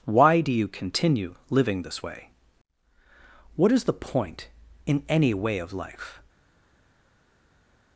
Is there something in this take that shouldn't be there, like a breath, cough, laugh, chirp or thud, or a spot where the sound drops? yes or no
no